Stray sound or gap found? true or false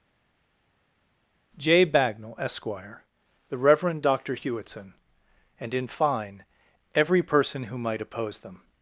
false